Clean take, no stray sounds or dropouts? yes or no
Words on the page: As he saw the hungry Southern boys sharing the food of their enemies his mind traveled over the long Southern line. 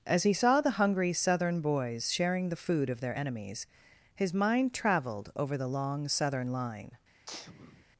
no